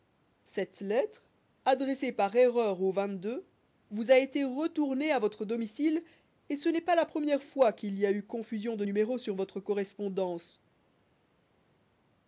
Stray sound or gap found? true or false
false